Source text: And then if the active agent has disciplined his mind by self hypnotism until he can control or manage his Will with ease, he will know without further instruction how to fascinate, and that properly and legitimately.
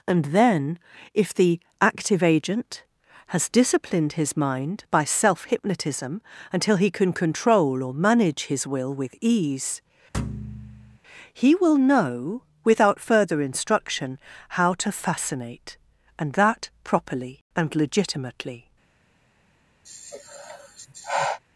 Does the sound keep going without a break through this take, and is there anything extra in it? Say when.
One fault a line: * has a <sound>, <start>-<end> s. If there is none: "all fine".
* has a thud, 10.1-11.0 s
* has a sigh, 19.8-21.4 s